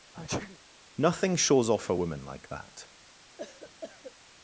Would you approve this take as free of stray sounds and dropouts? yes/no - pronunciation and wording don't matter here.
no